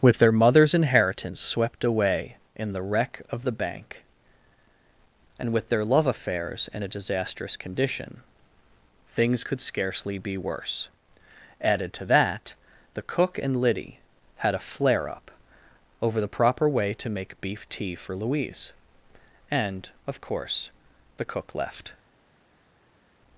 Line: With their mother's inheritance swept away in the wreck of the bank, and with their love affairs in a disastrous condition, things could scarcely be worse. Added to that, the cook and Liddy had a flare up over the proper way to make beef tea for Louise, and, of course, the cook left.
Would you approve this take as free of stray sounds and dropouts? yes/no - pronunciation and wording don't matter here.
yes